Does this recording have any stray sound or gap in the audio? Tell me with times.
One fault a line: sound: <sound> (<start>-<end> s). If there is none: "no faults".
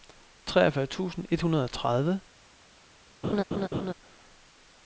sound: laugh (3.2-3.9 s)